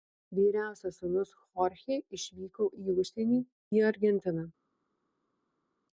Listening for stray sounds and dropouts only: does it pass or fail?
pass